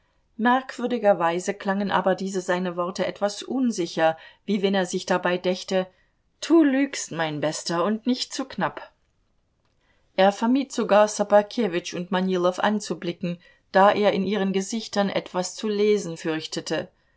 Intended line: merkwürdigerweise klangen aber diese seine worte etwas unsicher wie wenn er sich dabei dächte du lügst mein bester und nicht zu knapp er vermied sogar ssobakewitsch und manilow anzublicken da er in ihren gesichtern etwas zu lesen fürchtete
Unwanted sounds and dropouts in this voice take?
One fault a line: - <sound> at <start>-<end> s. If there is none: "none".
none